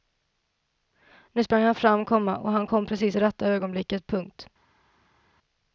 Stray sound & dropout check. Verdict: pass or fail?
pass